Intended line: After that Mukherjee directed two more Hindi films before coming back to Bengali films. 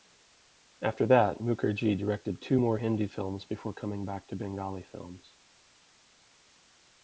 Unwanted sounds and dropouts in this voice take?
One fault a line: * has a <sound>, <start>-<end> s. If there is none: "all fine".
all fine